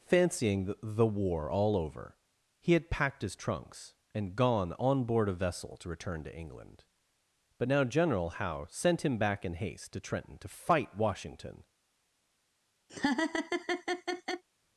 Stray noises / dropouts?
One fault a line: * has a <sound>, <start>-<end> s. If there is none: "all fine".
* has a laugh, 12.9-14.4 s